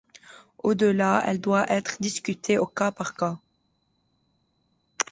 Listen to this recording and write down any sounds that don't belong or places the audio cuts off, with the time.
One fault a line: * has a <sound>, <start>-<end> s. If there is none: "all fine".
all fine